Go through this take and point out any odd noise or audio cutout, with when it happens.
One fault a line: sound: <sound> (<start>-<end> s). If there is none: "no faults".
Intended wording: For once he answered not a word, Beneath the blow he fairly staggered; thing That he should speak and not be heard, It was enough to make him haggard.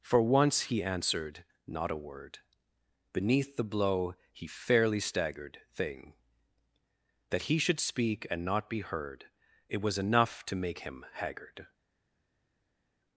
no faults